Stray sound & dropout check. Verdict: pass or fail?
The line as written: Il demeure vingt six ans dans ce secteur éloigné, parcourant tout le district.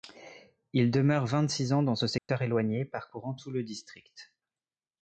fail